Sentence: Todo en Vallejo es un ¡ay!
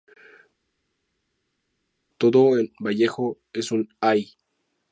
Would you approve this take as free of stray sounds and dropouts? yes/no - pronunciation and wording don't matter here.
yes